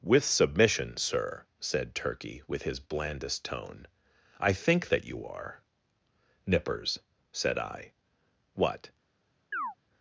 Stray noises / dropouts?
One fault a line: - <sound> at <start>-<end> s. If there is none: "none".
- chirp at 9.5-9.8 s